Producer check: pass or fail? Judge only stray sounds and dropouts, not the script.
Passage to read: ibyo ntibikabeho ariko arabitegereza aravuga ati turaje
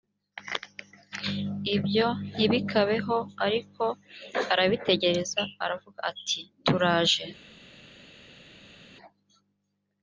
pass